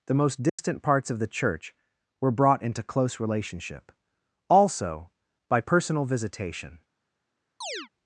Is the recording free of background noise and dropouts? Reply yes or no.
no